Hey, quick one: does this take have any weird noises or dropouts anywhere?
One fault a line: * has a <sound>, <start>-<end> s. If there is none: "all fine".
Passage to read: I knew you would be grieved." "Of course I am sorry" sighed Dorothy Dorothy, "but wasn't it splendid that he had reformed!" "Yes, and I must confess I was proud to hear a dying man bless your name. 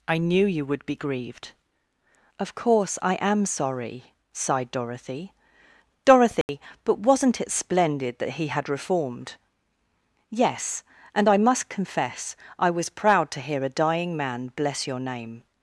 * has a dropout, 6.4-6.5 s